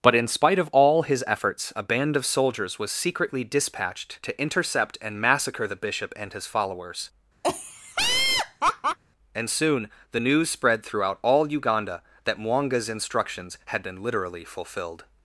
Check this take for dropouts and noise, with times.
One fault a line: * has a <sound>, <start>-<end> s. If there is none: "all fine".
* has a laugh, 7.4-9.0 s